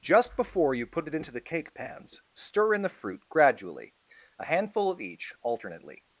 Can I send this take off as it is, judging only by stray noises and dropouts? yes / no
yes